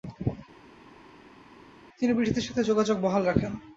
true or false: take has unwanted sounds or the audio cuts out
false